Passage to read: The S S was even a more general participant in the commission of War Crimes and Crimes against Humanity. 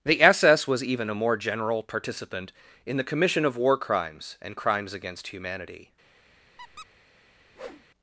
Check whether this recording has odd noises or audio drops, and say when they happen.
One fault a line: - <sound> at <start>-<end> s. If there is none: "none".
- squeak at 6.6-6.9 s
- whoosh at 7.5-7.8 s